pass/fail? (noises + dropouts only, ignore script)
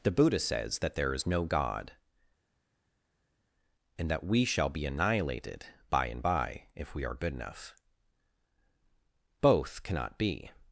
pass